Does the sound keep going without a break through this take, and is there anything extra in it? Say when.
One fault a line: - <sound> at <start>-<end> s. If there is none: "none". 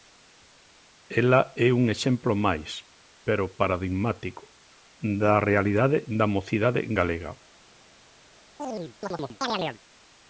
- chirp at 8.6-9.8 s